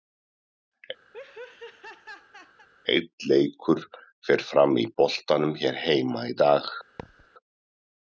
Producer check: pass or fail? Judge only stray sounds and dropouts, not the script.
fail